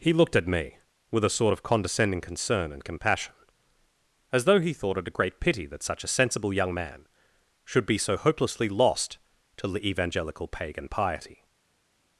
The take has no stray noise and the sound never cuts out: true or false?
true